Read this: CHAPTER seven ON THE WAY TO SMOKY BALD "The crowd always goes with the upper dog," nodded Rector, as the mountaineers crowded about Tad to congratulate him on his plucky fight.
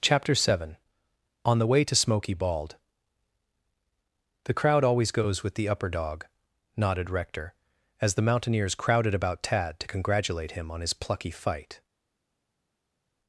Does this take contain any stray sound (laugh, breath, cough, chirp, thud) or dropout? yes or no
no